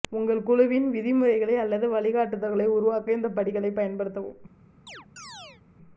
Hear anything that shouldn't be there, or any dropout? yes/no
yes